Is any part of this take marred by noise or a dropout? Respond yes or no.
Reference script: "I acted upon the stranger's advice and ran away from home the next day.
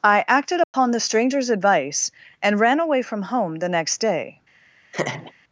yes